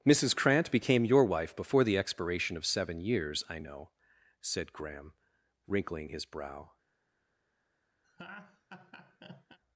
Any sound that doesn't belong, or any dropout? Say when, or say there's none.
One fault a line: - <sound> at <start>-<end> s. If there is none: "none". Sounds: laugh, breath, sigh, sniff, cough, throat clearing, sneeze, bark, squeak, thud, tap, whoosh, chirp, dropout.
- laugh at 8.0-9.6 s